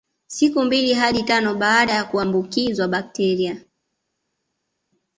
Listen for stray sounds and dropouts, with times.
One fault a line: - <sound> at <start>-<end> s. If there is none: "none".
none